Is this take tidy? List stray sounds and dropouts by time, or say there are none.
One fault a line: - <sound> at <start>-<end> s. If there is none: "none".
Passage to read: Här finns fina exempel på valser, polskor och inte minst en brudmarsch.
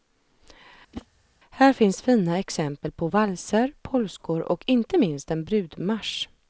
- whoosh at 0.9-1.1 s